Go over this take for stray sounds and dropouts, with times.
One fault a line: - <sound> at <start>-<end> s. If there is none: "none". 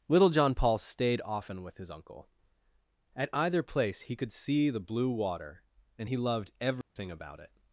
- dropout at 6.8-7.0 s